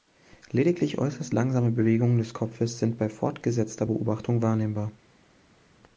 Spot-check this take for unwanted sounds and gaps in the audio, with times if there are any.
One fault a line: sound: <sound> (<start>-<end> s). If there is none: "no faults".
no faults